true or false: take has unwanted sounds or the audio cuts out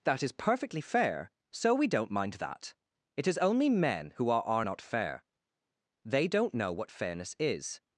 false